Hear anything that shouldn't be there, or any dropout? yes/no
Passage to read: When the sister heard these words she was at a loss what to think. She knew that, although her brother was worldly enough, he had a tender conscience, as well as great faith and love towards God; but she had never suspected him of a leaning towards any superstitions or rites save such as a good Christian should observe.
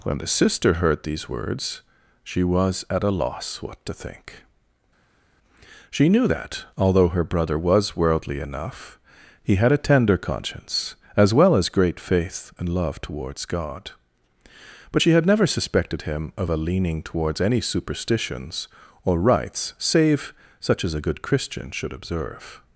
no